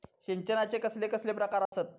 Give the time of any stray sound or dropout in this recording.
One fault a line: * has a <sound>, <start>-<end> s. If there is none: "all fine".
* has a dropout, 1.7-1.7 s